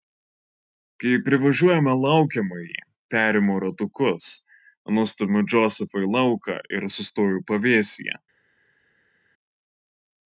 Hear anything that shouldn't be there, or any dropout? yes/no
no